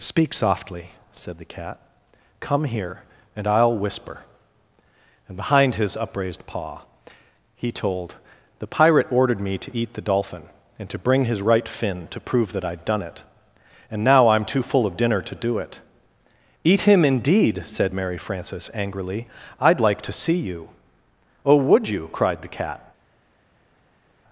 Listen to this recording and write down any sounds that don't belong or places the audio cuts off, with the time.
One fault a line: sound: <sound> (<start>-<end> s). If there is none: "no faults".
no faults